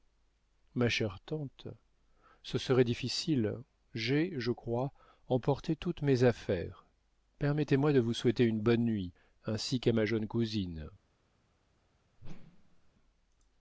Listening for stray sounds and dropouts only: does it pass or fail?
fail